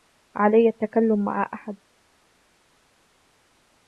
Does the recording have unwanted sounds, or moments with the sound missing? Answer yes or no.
no